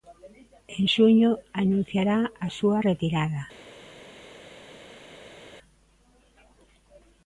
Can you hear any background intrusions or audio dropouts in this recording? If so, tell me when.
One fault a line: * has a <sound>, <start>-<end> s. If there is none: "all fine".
all fine